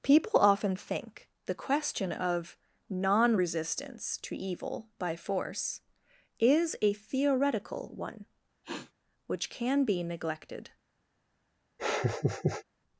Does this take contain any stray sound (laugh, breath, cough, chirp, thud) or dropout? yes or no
yes